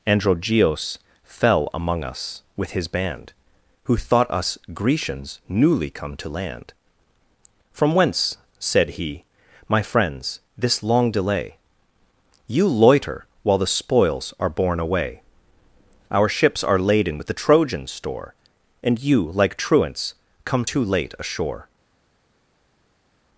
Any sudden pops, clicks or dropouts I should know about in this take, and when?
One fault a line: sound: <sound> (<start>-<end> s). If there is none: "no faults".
no faults